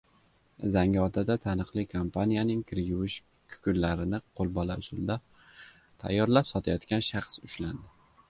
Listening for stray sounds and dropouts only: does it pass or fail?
pass